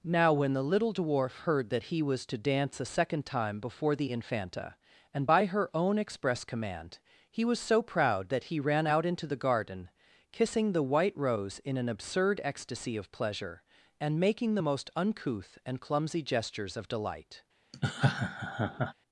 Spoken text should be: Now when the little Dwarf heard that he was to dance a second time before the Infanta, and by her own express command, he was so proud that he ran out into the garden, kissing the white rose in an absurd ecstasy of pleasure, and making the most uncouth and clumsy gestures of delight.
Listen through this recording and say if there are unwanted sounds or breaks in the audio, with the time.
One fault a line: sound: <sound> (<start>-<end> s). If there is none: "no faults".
sound: laugh (17.7-18.9 s)